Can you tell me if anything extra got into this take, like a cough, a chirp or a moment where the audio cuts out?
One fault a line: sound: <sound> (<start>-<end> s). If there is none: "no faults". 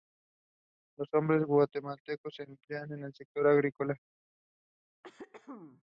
sound: throat clearing (5.0-5.8 s)